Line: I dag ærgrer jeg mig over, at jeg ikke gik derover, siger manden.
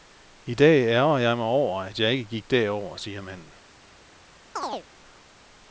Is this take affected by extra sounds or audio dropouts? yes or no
yes